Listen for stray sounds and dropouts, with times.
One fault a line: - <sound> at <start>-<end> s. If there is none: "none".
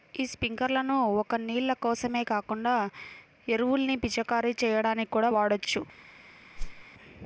- whoosh at 6.6-6.8 s